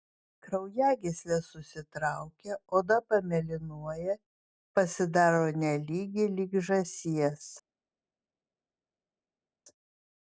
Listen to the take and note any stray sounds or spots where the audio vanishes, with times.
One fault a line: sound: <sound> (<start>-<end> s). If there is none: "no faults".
no faults